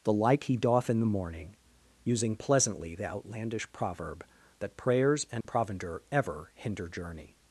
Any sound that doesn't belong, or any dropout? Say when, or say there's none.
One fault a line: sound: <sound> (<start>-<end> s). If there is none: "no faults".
sound: dropout (5.4-5.5 s)